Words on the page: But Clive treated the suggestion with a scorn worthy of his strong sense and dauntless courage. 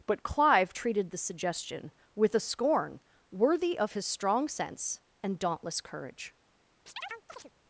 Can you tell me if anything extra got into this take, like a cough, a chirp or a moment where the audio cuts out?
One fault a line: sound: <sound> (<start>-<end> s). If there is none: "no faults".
sound: chirp (6.9-7.5 s)